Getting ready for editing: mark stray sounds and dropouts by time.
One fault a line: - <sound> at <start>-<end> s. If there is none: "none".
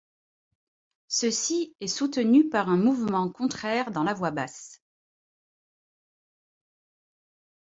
none